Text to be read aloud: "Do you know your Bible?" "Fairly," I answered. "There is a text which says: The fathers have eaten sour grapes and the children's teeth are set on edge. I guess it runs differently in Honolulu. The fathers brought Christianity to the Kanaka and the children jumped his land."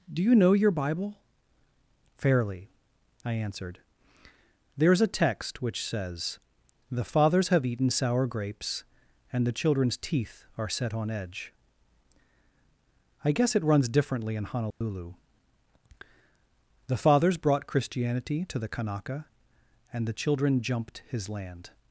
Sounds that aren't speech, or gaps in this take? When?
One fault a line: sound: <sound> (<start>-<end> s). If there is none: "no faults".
sound: dropout (14.7-14.8 s)